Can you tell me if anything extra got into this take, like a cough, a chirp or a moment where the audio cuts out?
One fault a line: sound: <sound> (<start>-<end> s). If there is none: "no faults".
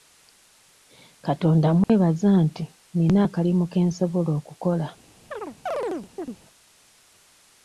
sound: dropout (1.8-1.9 s)
sound: chirp (5.3-6.4 s)